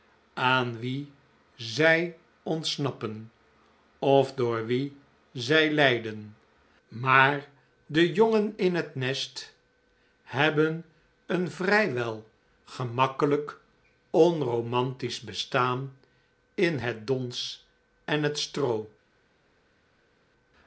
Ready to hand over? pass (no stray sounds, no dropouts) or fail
pass